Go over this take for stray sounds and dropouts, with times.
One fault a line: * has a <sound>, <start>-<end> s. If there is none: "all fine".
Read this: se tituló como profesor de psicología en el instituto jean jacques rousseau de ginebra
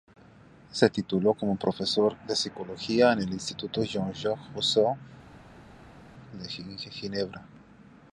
all fine